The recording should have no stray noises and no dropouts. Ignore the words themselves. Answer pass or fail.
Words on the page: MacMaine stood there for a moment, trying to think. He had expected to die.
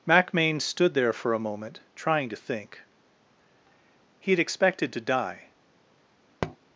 fail